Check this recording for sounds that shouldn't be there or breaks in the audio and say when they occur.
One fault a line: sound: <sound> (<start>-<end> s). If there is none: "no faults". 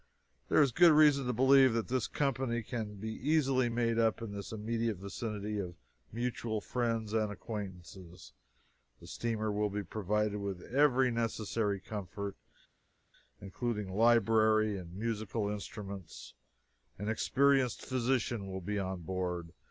no faults